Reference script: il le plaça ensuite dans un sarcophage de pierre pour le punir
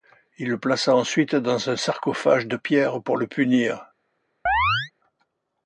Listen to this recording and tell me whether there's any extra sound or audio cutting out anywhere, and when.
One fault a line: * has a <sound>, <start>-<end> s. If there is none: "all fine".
* has a chirp, 4.5-4.9 s